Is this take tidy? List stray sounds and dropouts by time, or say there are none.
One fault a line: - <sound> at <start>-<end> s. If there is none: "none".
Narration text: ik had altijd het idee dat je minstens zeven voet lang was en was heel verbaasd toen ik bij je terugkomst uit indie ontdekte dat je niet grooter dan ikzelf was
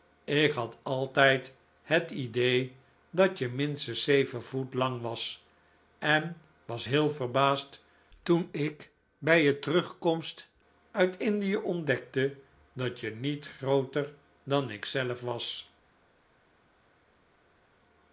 none